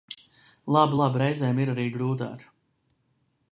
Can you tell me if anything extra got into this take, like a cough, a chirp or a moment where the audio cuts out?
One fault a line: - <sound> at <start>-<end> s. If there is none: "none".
none